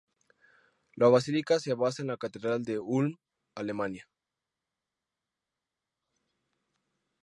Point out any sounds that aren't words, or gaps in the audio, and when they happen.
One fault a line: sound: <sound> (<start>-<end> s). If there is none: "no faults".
no faults